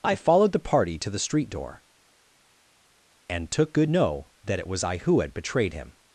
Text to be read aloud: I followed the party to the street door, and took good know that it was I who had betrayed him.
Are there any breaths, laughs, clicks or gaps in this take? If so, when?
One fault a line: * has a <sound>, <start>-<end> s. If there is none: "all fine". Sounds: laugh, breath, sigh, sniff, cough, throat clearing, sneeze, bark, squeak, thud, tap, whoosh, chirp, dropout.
all fine